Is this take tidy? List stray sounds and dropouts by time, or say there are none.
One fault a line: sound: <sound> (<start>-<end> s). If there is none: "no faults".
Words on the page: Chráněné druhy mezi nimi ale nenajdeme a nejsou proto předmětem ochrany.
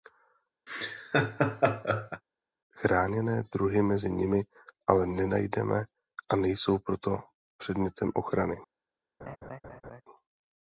sound: laugh (0.7-2.2 s)
sound: laugh (9.2-10.0 s)